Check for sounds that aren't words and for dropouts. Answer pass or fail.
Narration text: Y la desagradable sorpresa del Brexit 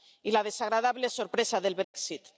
fail